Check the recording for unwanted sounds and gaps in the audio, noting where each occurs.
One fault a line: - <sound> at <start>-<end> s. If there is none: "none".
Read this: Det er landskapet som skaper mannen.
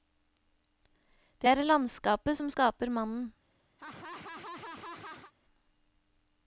- laugh at 3.8-5.3 s